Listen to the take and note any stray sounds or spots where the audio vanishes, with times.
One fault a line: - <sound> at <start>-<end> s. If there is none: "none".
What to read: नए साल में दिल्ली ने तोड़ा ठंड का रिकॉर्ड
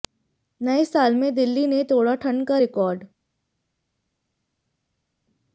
none